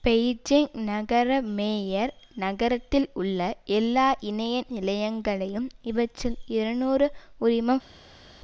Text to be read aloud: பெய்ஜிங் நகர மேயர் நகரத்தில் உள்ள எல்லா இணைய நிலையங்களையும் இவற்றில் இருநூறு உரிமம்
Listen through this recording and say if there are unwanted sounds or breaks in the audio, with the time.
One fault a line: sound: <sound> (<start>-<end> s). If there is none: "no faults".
no faults